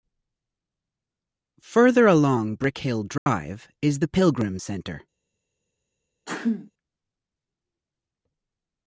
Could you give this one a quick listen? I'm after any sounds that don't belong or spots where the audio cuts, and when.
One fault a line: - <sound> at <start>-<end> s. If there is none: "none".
- dropout at 3.2-3.3 s
- sneeze at 6.3-6.7 s